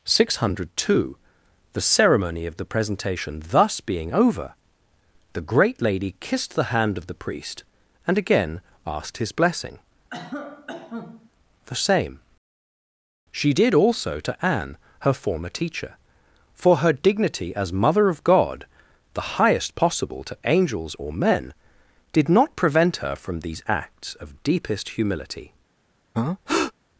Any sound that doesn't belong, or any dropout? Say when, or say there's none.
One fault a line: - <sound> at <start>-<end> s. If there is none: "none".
- cough at 10.1-11.3 s
- breath at 26.1-26.7 s